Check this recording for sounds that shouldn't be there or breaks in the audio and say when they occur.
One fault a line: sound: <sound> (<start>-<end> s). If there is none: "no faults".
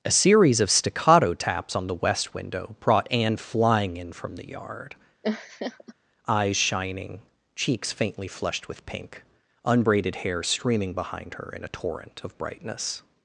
sound: laugh (5.2-5.9 s)